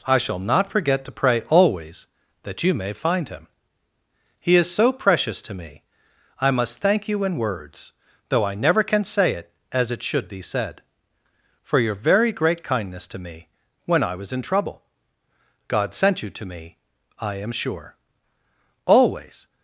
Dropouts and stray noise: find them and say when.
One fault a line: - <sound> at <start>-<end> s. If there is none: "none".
none